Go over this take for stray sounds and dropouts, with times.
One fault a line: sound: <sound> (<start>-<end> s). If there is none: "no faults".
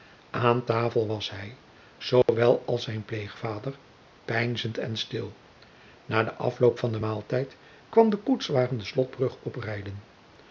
sound: dropout (2.2-2.3 s)